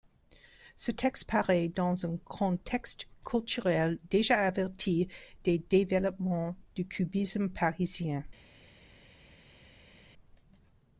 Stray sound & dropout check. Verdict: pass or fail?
pass